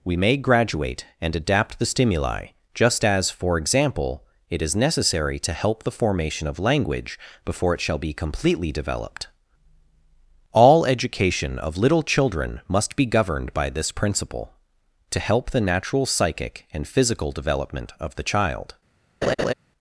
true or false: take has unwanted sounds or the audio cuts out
true